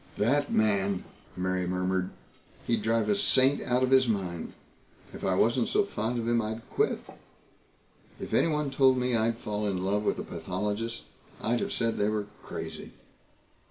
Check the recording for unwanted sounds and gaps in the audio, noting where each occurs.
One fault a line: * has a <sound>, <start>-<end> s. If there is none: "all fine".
all fine